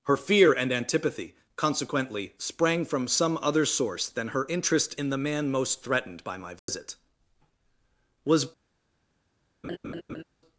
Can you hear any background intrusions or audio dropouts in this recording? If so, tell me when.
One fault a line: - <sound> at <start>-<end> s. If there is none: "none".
- dropout at 6.6-6.7 s
- laugh at 9.6-10.2 s